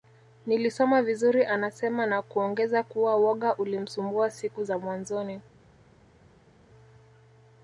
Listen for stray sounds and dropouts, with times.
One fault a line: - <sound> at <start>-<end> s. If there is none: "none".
none